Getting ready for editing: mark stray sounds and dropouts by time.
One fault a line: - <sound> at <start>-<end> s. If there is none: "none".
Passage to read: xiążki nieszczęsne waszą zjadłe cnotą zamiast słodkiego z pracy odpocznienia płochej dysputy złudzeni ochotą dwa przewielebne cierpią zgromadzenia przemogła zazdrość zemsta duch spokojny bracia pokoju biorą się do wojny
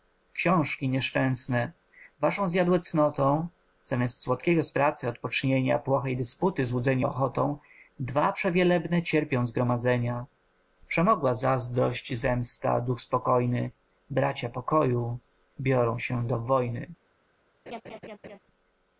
- laugh at 17.7-18.4 s